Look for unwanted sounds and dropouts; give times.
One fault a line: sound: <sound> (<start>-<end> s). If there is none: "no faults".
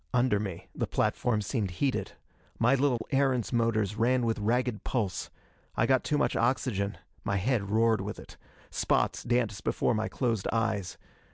sound: dropout (3.0-3.0 s)